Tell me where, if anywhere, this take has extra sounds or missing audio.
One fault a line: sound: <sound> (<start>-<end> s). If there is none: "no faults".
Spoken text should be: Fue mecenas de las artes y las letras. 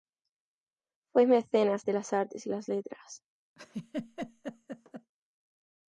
sound: laugh (3.6-5.1 s)